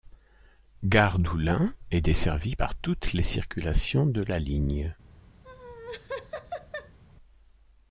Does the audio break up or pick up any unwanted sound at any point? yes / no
yes